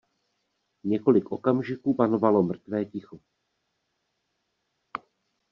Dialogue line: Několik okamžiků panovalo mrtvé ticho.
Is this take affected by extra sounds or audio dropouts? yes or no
no